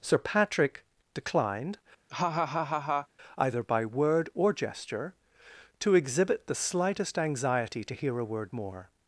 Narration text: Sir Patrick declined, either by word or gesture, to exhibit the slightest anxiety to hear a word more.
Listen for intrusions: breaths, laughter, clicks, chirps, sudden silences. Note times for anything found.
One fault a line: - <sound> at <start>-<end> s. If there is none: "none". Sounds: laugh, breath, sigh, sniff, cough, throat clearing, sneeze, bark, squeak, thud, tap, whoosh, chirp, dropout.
- laugh at 2.1-3.1 s